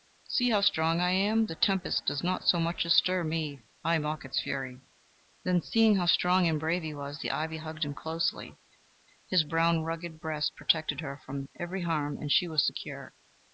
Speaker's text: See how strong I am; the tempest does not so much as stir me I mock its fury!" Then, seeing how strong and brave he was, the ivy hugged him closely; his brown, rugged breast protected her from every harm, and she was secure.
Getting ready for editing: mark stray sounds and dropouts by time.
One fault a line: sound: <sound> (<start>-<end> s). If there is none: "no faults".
no faults